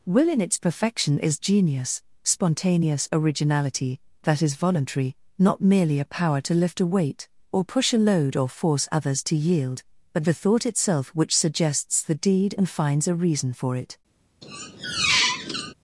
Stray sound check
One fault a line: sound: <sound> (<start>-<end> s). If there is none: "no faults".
sound: squeak (14.4-15.7 s)